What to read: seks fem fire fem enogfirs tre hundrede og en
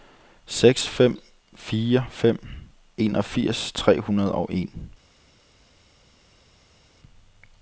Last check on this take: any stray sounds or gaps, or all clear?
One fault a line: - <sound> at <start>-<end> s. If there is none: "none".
none